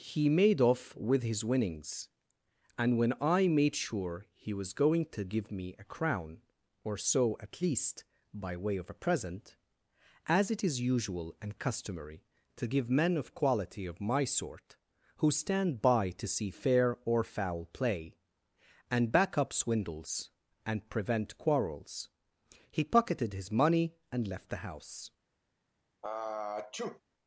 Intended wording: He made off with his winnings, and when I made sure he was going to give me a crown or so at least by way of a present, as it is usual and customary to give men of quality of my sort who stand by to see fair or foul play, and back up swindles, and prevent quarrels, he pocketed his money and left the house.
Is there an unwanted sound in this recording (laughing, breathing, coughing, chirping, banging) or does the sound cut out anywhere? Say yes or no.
yes